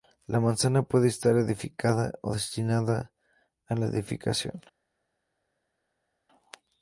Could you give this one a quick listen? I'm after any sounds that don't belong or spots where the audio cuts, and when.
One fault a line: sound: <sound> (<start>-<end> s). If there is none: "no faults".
no faults